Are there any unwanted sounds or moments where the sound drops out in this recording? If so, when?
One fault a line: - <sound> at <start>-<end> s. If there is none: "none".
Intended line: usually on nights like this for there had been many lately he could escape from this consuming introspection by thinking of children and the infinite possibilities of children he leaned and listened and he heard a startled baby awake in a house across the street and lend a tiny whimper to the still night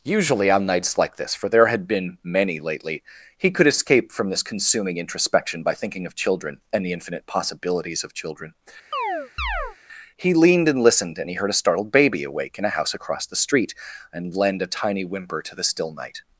- chirp at 8.9-9.8 s